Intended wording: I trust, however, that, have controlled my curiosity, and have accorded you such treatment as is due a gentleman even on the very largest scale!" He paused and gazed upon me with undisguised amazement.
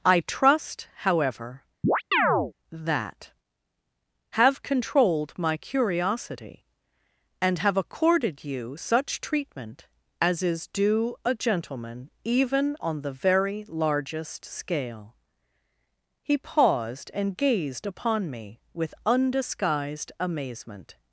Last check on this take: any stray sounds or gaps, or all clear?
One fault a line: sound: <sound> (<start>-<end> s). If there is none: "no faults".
sound: chirp (1.8-2.5 s)